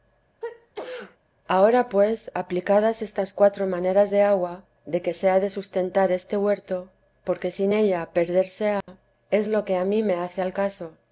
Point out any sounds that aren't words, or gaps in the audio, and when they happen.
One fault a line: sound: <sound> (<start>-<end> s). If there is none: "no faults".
sound: sneeze (0.4-1.2 s)
sound: dropout (8.8-8.9 s)